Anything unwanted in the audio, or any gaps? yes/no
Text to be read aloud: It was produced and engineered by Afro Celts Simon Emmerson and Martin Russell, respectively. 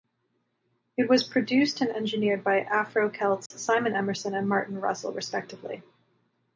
yes